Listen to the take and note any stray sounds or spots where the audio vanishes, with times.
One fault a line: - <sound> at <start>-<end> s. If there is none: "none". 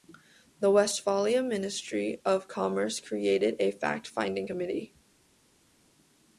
none